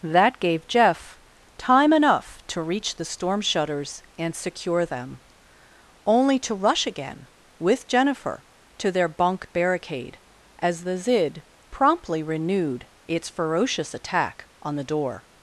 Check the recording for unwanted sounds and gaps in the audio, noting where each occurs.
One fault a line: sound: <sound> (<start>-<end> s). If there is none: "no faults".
no faults